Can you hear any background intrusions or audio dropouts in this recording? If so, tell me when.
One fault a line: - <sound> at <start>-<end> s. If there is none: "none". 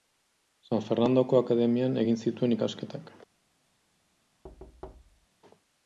- thud at 4.4-5.3 s